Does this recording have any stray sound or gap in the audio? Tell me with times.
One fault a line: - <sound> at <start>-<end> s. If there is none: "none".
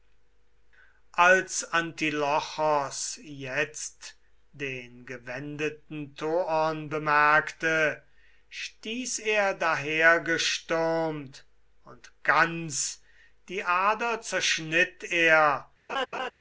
- laugh at 15.9-16.3 s